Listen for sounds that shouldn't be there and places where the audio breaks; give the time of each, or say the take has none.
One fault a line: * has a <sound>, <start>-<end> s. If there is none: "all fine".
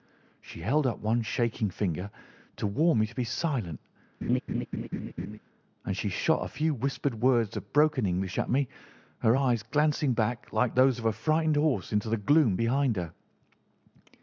* has a laugh, 4.2-5.4 s